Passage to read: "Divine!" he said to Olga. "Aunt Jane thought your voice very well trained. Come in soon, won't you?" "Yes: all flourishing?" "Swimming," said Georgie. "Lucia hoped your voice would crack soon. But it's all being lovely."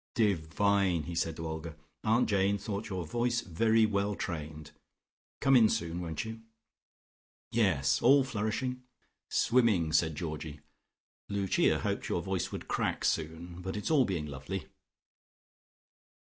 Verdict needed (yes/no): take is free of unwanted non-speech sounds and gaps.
yes